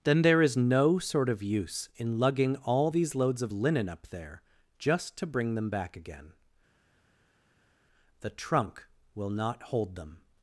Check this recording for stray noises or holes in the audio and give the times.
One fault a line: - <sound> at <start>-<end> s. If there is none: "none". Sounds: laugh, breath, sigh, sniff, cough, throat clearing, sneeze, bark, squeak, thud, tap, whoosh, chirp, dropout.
none